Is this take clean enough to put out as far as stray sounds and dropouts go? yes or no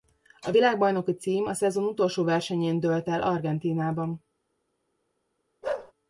no